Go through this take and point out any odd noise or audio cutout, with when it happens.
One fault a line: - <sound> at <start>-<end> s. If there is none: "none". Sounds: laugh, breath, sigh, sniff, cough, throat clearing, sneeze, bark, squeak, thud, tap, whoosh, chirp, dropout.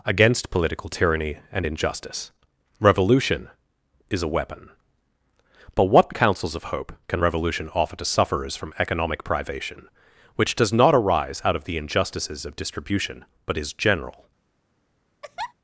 - laugh at 15.2-15.5 s